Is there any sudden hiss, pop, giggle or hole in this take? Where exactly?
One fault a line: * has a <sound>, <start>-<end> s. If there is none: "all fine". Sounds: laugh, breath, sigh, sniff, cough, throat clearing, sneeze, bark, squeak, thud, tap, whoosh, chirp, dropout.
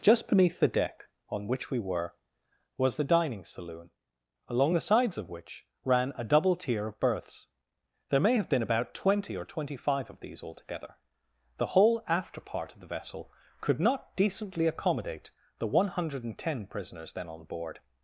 all fine